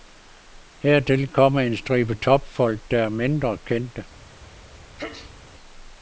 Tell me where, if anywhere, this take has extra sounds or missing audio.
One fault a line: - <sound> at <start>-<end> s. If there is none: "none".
- sneeze at 5.0-5.4 s